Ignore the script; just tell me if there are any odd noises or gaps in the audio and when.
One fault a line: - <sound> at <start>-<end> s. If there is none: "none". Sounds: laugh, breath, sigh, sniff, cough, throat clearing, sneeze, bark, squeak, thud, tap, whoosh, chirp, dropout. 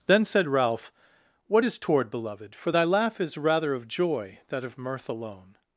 none